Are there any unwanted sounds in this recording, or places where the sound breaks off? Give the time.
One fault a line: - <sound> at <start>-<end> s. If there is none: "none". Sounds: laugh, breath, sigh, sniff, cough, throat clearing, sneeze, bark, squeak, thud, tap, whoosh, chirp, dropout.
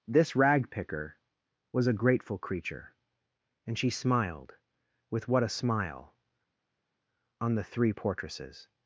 none